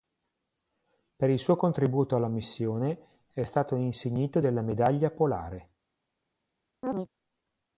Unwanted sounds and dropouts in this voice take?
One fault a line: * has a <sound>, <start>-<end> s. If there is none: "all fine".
* has a chirp, 6.8-7.1 s